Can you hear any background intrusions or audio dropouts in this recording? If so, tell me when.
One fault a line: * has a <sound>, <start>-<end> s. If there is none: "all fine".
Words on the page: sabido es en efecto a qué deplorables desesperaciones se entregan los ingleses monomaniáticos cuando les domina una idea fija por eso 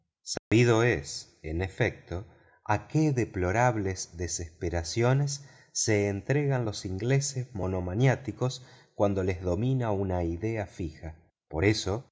* has a dropout, 0.4-0.5 s